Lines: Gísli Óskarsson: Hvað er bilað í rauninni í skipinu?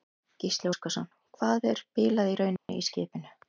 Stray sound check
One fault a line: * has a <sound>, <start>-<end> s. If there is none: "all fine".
* has a dropout, 2.6-2.7 s